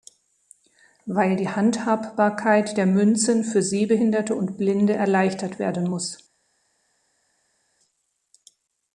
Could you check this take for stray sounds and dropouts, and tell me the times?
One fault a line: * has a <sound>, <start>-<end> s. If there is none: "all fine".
all fine